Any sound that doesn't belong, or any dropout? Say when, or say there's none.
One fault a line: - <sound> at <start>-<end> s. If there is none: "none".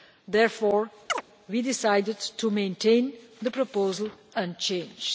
- chirp at 1.1-1.2 s